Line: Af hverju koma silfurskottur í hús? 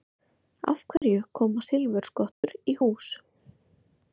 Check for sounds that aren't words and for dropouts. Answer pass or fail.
fail